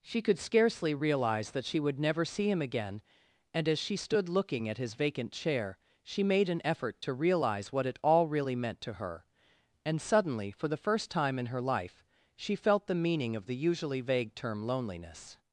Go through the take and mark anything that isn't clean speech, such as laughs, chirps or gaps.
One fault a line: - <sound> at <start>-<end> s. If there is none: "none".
none